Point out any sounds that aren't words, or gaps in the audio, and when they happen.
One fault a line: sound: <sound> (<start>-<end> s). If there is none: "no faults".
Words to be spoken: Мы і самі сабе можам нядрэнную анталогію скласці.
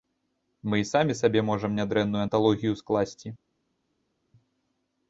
no faults